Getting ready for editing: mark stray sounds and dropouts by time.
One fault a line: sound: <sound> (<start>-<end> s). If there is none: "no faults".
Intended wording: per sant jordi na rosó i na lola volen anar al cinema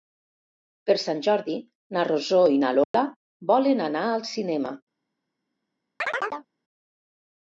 sound: dropout (2.8-2.9 s)
sound: chirp (6.0-6.5 s)